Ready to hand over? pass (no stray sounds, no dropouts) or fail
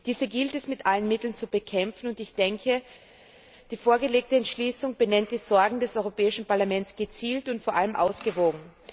pass